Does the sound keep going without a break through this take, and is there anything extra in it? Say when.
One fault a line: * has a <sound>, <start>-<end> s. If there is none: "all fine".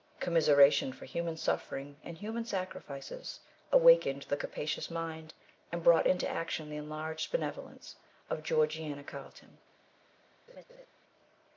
* has a laugh, 10.5-10.9 s